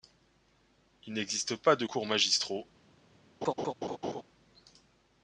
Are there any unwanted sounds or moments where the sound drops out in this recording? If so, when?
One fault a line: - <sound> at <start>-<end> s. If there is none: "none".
- laugh at 3.4-4.2 s